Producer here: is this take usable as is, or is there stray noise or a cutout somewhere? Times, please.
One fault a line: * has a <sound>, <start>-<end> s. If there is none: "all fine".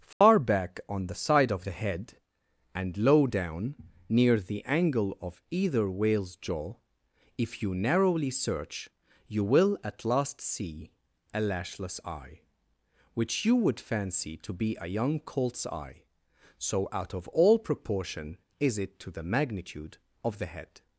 * has a dropout, 0.1-0.2 s